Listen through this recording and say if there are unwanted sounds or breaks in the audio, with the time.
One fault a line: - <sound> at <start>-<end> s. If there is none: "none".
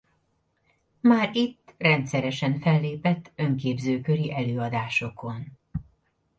none